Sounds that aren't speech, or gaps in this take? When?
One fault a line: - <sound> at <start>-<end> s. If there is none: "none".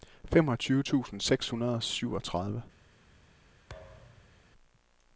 - thud at 3.7-4.4 s